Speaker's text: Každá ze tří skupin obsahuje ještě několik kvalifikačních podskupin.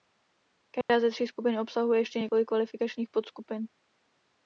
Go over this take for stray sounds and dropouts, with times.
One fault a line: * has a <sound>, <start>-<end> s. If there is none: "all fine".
* has a dropout, 0.8-0.9 s